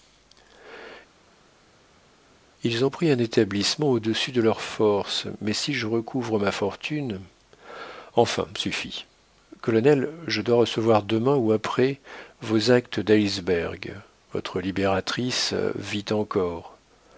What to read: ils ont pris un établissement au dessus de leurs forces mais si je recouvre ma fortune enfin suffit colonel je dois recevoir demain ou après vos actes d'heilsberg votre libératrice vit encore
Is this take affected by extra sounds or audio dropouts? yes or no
no